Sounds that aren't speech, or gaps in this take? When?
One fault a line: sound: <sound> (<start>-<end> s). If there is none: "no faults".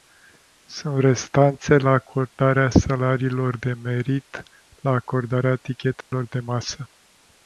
sound: dropout (6.0-6.1 s)